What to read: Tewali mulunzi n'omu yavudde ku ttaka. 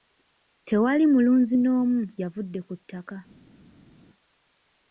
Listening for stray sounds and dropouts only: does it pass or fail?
pass